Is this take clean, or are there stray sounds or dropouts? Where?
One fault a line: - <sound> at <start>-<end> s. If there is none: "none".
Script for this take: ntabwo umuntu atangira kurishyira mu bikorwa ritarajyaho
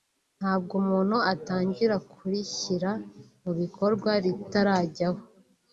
none